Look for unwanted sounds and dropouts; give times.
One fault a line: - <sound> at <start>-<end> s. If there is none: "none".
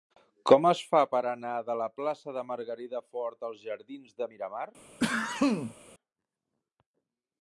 - sneeze at 5.0-5.8 s